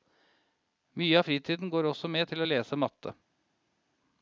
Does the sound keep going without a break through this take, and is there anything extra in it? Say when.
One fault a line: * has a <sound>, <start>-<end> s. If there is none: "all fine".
all fine